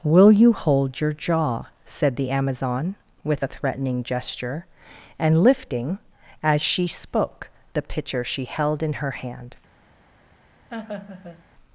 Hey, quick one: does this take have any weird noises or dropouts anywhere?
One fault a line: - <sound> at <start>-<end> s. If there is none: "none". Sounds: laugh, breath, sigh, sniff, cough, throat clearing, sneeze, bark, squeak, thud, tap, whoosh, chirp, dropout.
- laugh at 10.7-11.5 s